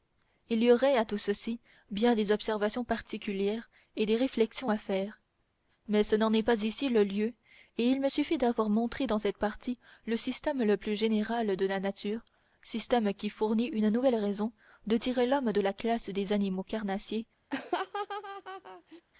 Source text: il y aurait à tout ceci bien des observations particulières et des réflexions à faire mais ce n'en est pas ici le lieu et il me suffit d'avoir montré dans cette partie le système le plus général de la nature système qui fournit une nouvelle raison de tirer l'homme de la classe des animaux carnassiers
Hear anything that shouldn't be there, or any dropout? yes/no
yes